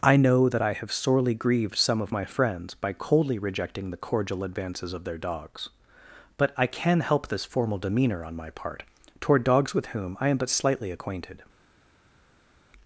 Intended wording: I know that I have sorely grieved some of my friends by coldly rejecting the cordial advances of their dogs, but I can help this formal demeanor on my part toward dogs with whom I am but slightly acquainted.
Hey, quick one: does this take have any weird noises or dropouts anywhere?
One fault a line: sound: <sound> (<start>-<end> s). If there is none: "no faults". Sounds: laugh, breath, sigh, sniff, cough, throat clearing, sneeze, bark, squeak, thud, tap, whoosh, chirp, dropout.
no faults